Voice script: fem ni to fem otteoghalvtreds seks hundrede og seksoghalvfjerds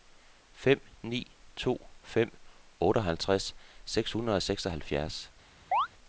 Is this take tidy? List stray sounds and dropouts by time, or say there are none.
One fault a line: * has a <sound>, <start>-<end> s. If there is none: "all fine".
* has a chirp, 5.7-5.9 s